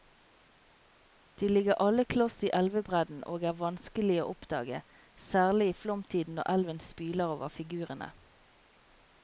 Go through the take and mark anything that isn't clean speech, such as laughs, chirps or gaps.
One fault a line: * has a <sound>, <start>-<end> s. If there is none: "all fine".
all fine